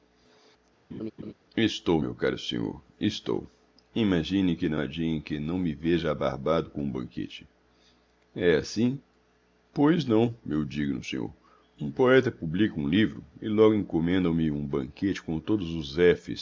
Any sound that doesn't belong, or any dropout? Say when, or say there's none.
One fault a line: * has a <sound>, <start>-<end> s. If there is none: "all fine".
* has a laugh, 0.9-1.3 s